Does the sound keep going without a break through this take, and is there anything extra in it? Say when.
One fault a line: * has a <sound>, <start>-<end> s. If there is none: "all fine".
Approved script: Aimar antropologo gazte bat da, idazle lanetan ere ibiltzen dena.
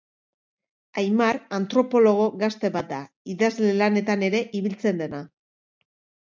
all fine